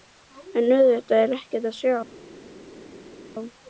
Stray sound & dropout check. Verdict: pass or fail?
pass